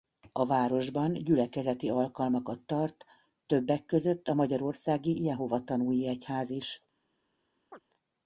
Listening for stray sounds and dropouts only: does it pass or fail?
fail